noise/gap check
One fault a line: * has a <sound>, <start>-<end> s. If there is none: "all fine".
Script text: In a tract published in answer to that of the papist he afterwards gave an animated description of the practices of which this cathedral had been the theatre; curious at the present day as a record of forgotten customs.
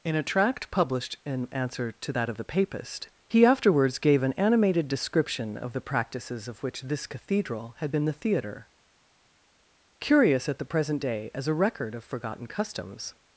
all fine